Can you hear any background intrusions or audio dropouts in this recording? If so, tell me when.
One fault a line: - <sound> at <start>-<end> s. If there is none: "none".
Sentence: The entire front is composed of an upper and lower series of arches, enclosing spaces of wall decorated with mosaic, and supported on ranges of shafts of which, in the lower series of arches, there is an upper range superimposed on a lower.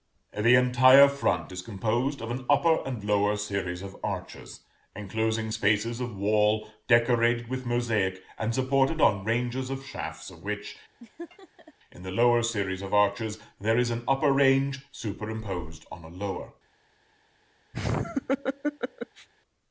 - laugh at 11.0-11.7 s
- laugh at 17.7-19.3 s